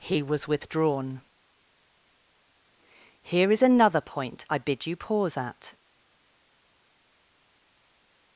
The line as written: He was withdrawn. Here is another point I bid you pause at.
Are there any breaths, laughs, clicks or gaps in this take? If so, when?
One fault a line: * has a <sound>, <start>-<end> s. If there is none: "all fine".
all fine